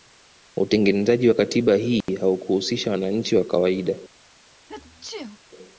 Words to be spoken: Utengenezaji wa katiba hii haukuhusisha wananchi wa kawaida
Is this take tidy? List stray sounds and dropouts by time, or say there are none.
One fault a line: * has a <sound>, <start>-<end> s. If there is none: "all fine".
* has a dropout, 2.0-2.1 s
* has a sneeze, 4.7-5.4 s